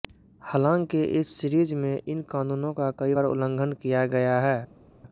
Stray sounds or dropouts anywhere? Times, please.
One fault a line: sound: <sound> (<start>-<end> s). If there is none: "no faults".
no faults